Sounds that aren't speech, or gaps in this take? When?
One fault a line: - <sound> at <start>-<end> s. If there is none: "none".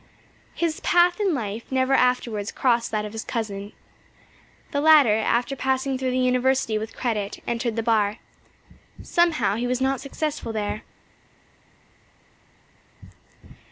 none